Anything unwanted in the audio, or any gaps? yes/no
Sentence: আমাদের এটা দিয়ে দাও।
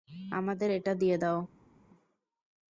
no